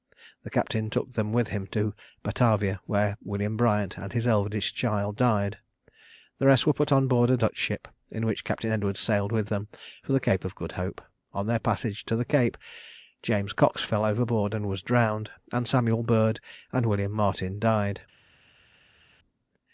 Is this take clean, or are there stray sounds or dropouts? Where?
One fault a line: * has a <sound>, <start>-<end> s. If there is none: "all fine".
all fine